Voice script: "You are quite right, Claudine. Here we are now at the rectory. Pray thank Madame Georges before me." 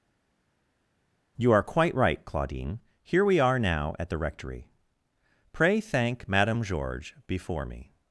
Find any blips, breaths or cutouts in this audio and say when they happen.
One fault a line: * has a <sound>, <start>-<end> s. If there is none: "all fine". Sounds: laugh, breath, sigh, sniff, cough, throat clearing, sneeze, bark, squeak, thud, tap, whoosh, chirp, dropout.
all fine